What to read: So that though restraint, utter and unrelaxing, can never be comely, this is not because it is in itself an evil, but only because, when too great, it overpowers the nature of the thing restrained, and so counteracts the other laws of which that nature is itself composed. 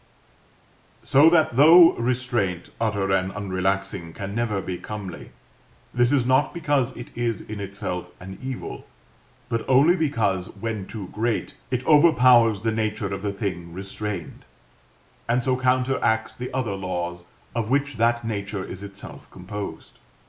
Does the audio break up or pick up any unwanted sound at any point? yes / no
no